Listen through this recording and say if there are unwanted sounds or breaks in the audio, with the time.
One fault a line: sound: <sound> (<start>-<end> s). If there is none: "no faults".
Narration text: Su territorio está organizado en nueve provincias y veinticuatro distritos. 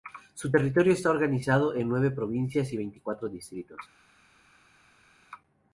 no faults